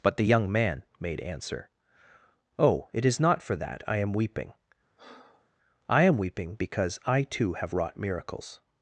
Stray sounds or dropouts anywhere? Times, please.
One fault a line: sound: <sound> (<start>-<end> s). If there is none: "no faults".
sound: breath (5.0-5.5 s)